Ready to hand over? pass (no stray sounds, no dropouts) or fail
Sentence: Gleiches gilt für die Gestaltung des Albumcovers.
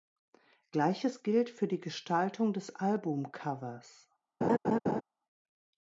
fail